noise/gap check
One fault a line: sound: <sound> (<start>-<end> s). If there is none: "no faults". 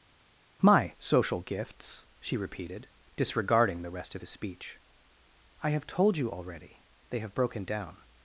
no faults